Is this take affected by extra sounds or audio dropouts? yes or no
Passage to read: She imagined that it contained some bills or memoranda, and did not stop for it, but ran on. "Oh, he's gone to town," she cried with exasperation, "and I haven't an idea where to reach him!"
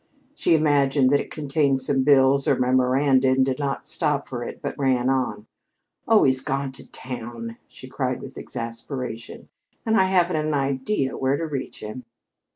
no